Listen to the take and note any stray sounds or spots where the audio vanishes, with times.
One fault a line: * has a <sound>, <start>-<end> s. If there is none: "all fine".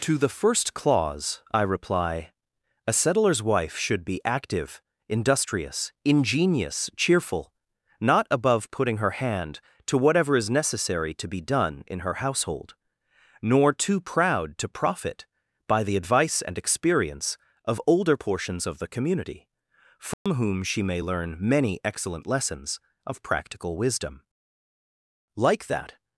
* has a dropout, 20.1-20.3 s